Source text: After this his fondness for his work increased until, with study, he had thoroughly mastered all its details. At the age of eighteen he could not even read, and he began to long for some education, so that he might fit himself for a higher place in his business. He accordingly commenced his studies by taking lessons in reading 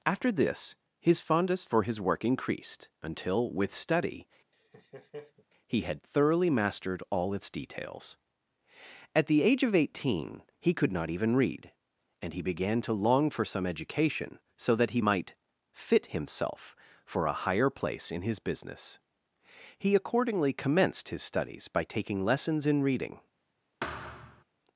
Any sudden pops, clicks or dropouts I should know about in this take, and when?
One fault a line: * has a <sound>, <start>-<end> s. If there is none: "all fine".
* has a laugh, 4.5-5.5 s
* has a thud, 23.8-24.4 s